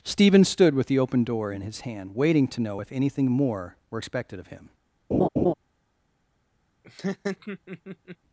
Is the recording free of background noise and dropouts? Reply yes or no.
no